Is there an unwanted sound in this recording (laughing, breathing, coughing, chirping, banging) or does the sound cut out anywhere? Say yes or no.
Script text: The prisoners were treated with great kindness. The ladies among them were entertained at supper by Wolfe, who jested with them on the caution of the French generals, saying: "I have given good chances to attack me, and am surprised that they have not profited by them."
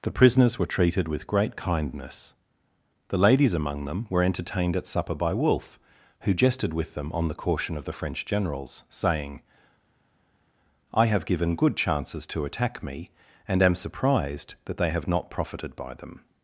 no